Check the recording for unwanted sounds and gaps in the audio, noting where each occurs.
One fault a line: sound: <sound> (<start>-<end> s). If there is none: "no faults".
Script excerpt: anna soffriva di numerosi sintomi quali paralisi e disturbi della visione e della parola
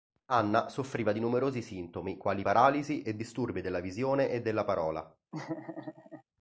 sound: laugh (5.3-6.2 s)